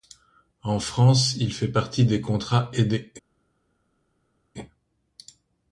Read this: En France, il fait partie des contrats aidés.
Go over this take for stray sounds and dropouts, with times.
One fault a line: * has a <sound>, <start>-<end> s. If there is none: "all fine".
all fine